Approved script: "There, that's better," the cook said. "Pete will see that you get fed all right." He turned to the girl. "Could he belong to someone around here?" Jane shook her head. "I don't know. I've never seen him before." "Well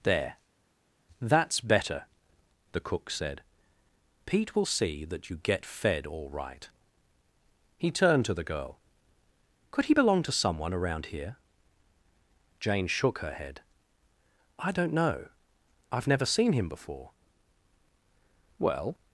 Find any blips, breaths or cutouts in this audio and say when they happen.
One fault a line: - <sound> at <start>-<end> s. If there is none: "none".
none